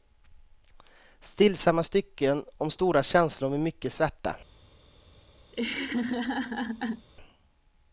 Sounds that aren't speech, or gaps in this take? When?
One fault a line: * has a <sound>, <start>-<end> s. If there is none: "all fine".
* has a laugh, 5.5-7.1 s